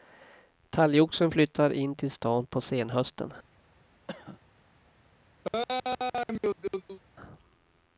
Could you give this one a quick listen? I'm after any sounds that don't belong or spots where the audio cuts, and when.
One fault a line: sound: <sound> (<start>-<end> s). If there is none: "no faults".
sound: cough (4.1-4.4 s)
sound: laugh (5.4-7.0 s)